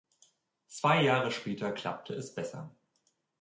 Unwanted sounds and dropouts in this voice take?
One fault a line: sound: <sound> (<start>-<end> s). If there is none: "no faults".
no faults